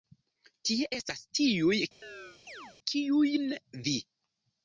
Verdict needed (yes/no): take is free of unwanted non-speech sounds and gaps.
no